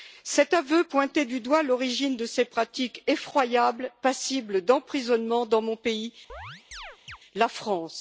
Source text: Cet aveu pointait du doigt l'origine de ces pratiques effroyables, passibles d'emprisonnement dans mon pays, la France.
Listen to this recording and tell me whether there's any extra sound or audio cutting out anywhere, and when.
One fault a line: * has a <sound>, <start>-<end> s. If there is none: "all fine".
* has a chirp, 6.3-7.2 s